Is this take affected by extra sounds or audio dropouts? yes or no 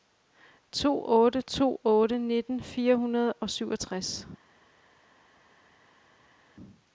no